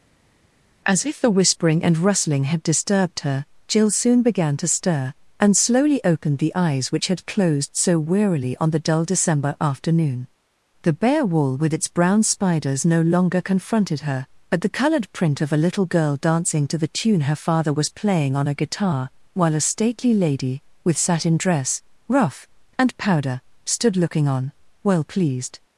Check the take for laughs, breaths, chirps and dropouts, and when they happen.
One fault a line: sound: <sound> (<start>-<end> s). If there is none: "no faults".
no faults